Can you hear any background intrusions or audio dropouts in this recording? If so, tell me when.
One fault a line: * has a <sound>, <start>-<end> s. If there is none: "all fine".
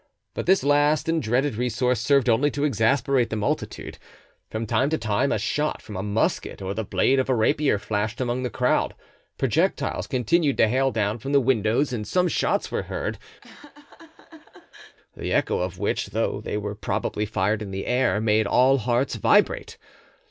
* has a laugh, 13.4-15.0 s